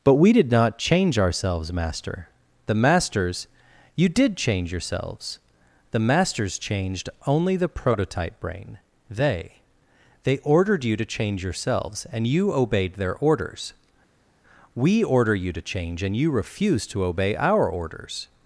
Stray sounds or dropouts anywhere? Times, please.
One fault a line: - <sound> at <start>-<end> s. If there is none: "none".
none